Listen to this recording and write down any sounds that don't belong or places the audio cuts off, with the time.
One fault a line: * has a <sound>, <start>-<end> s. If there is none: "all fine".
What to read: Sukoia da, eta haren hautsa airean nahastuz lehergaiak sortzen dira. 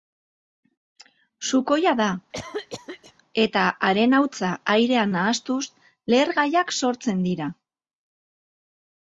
* has a cough, 2.3-3.1 s